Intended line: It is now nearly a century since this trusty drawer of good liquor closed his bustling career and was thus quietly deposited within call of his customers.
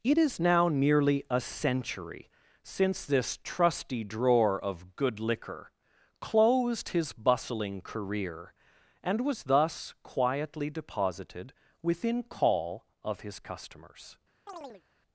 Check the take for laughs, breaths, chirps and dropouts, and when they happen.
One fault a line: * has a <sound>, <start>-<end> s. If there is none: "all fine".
* has a chirp, 14.5-14.8 s